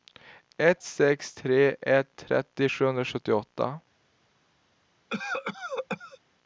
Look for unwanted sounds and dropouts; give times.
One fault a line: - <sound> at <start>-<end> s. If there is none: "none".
- cough at 5.1-6.2 s